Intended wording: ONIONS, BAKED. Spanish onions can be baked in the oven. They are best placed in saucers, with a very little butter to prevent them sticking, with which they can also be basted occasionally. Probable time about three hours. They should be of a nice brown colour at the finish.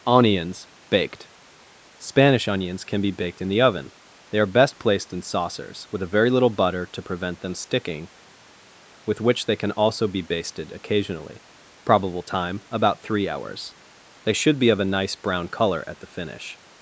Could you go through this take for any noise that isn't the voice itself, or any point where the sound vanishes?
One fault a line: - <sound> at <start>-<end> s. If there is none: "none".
none